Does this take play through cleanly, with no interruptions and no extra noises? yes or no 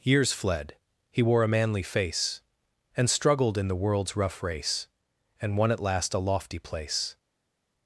yes